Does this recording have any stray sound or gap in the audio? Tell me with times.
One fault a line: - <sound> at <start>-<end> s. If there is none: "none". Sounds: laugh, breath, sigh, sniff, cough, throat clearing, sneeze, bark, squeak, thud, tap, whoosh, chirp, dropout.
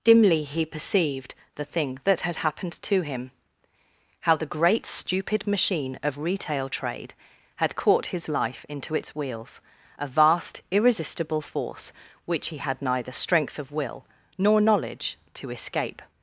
none